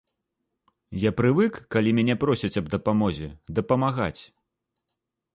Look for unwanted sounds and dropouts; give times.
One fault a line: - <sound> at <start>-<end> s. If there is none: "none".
none